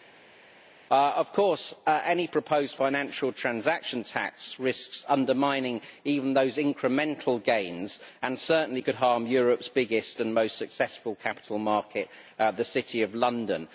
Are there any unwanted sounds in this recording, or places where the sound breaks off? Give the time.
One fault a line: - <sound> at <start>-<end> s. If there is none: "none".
none